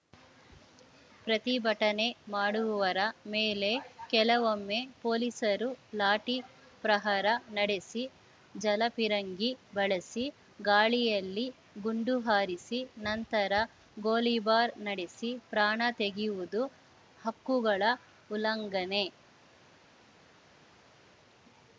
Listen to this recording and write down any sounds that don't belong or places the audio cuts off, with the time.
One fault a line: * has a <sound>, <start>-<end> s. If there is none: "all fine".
all fine